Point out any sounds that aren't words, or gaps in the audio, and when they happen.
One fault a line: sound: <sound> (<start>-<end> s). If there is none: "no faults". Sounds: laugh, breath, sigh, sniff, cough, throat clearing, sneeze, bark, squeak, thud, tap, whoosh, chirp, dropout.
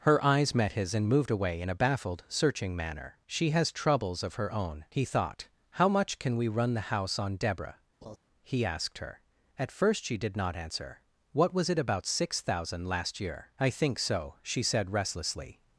sound: laugh (8.0-8.2 s)